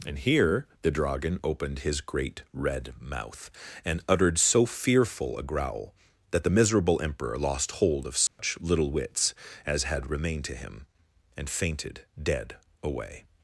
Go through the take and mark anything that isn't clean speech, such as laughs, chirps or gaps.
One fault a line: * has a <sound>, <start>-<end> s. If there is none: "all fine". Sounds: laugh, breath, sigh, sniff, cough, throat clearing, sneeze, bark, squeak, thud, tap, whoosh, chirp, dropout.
* has a dropout, 8.3-8.4 s